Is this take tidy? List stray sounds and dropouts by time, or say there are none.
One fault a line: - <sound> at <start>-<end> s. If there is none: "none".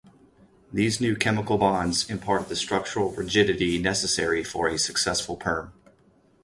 none